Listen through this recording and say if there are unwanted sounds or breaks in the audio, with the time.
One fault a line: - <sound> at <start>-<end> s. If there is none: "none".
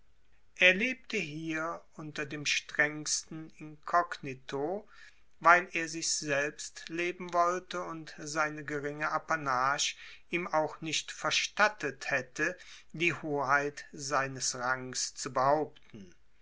none